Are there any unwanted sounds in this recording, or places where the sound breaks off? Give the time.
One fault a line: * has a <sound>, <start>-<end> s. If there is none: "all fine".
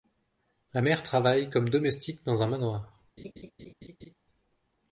* has a laugh, 3.2-4.1 s